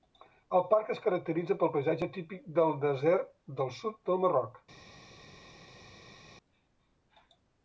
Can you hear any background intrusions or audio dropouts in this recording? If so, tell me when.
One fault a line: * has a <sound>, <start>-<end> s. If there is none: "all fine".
all fine